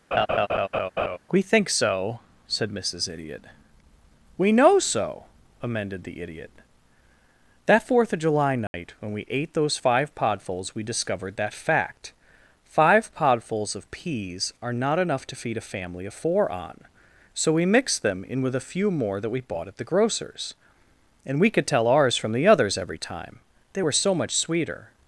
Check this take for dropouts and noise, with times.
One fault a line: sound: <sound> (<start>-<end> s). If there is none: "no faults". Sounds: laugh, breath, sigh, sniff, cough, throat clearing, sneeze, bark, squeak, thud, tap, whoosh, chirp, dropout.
sound: laugh (0.1-1.2 s)
sound: dropout (8.7-8.7 s)